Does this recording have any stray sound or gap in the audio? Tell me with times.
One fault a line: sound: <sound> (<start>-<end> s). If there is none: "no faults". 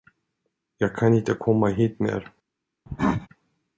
sound: cough (2.9-3.3 s)